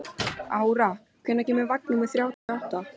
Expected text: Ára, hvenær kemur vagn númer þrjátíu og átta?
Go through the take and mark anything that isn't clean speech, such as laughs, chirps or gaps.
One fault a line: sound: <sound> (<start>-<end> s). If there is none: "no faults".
sound: dropout (2.3-2.5 s)